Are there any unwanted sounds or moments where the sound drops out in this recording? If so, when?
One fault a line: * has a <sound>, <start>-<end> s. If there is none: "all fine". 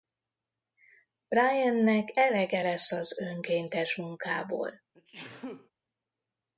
* has a sneeze, 4.9-5.7 s